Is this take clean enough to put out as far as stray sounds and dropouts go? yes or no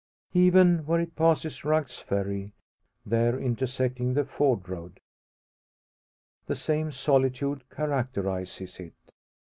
yes